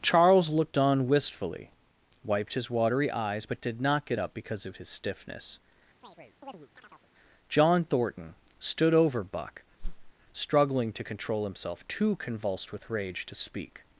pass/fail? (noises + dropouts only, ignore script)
fail